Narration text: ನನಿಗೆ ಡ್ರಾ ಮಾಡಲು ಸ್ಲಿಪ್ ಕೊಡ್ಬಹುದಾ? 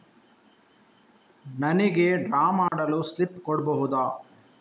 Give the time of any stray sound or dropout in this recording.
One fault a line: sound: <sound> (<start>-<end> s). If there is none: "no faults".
sound: dropout (2.7-2.7 s)